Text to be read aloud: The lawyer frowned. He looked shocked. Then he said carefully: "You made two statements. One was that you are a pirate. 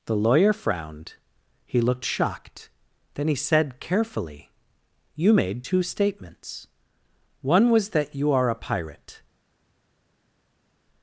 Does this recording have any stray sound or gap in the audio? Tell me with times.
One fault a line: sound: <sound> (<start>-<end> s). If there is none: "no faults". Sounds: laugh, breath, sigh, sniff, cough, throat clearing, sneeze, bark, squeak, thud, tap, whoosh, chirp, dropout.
no faults